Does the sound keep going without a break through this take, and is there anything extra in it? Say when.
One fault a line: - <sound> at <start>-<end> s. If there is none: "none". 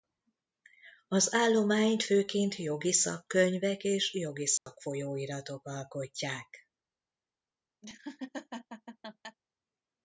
- dropout at 4.6-4.7 s
- laugh at 7.8-9.4 s